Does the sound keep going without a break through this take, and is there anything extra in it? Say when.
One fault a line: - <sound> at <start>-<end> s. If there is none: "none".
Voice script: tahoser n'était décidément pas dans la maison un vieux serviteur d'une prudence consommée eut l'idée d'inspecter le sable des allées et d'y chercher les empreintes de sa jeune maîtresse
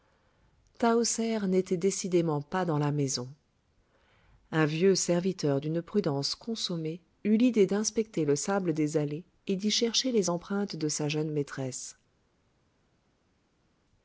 none